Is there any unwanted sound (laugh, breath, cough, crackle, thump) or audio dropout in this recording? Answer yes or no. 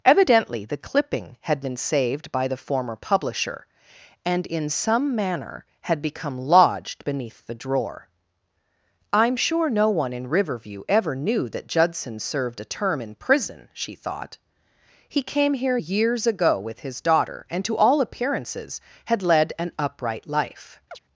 yes